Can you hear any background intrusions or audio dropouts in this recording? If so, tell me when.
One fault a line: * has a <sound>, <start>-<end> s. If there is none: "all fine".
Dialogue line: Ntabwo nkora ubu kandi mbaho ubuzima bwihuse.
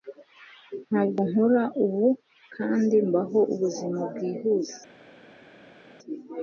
all fine